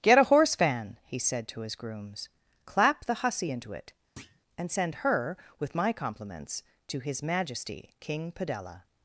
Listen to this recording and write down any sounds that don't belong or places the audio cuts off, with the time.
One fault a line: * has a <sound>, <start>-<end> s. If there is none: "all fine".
* has a thud, 4.2-4.4 s